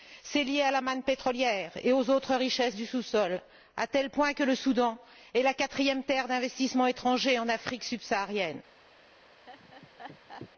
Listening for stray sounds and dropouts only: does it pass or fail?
fail